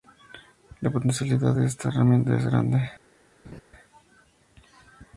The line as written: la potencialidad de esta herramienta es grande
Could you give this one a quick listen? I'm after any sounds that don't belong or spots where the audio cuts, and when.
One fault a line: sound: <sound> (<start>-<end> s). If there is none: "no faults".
sound: laugh (3.4-3.6 s)